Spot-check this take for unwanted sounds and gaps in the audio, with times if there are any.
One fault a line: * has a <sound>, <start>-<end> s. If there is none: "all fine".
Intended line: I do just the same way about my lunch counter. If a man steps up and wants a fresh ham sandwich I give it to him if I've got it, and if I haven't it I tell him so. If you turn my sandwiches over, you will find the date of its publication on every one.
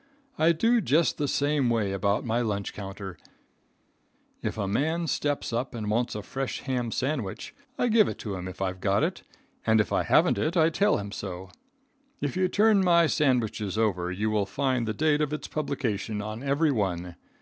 all fine